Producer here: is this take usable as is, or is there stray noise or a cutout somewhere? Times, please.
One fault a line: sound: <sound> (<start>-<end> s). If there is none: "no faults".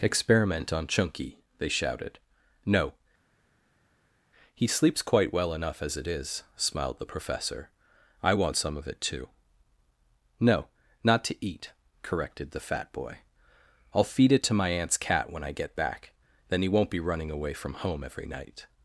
no faults